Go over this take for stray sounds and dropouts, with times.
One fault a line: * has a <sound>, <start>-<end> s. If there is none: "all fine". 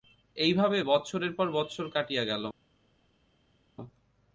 all fine